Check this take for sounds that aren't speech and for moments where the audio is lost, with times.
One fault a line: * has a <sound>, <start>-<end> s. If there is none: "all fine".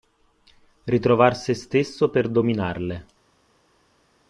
all fine